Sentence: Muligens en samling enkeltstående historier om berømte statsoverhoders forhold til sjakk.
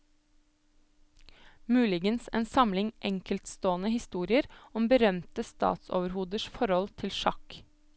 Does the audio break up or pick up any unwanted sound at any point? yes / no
no